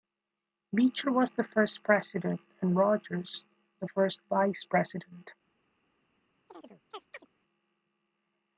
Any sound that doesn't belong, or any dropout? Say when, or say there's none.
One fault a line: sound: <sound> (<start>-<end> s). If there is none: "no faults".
sound: chirp (6.5-7.3 s)